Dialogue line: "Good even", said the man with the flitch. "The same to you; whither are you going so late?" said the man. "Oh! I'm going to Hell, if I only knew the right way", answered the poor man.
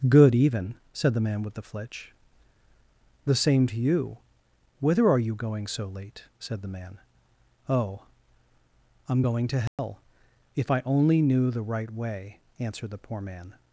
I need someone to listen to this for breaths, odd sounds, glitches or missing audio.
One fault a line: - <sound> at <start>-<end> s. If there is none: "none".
- dropout at 9.7-9.8 s